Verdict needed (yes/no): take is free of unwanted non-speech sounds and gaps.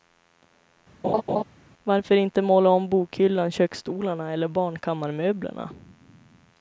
no